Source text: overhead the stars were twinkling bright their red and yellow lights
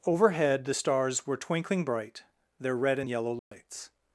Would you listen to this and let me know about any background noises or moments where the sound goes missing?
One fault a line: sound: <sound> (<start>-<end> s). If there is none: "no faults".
sound: dropout (3.4-3.5 s)